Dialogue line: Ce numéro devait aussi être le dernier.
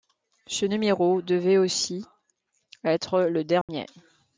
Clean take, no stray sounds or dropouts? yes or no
no